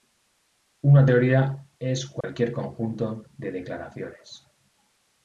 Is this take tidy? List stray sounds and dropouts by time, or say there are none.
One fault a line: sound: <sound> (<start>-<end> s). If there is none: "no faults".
sound: dropout (2.2-2.2 s)